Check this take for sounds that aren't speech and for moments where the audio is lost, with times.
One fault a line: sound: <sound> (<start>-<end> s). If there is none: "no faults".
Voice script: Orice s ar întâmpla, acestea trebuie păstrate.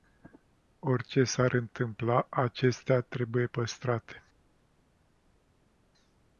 no faults